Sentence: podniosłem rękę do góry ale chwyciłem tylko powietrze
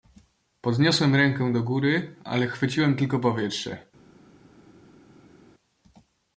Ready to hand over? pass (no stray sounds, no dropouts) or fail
pass